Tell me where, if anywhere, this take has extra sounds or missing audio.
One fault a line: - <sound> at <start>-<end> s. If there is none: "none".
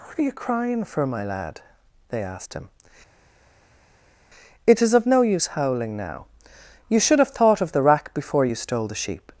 none